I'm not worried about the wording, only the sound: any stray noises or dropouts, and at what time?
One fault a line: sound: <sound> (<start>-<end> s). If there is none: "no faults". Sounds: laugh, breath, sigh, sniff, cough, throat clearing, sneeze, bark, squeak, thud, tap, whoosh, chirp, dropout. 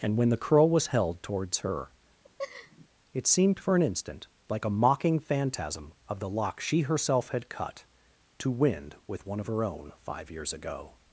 sound: laugh (2.2-2.9 s)